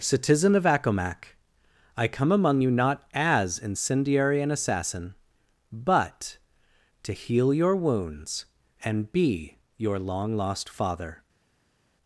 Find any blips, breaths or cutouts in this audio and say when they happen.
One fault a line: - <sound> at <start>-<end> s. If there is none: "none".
none